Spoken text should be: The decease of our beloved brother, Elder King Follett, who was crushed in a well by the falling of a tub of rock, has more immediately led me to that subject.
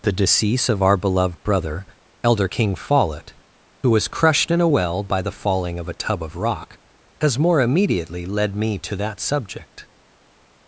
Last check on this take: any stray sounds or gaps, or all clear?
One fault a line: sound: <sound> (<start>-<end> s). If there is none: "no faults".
no faults